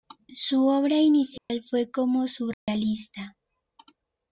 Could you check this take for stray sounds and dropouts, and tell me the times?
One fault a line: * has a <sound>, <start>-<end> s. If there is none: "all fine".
* has a dropout, 1.4-1.5 s
* has a dropout, 2.5-2.7 s